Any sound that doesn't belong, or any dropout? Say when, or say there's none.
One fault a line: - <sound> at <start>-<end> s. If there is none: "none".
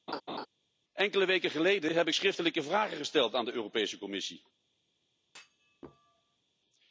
- laugh at 0.1-0.5 s
- thud at 5.2-6.4 s